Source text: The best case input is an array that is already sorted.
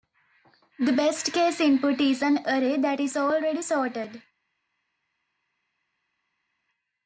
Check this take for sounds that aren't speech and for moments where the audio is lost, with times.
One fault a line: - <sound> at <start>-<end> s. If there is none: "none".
none